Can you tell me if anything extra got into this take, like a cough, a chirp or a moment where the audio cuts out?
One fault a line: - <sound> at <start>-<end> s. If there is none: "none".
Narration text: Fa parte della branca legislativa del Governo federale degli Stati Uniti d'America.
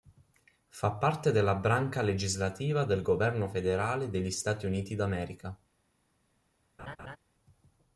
- laugh at 6.8-7.2 s